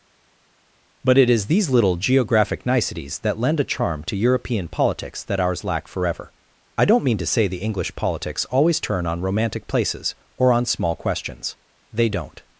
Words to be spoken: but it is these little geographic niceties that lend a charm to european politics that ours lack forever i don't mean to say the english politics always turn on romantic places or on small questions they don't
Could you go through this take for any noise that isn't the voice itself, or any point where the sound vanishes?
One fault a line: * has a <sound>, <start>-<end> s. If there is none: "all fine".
all fine